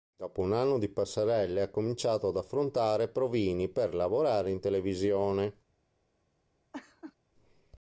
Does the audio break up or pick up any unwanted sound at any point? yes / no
yes